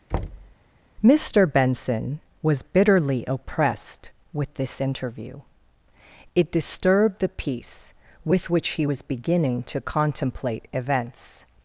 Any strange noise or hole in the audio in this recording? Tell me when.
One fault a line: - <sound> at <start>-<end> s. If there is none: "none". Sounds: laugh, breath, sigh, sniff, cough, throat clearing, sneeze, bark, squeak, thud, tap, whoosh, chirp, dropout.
- thud at 0.1-0.6 s